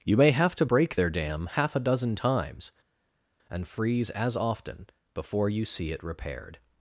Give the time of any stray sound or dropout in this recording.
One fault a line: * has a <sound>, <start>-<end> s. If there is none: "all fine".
all fine